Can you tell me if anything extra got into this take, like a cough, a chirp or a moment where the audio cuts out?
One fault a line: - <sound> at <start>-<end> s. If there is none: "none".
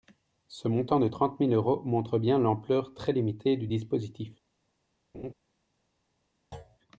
- laugh at 5.1-5.3 s
- thud at 6.5-6.8 s